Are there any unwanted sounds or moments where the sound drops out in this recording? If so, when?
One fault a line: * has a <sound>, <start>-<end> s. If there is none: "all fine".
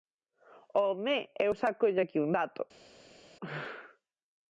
all fine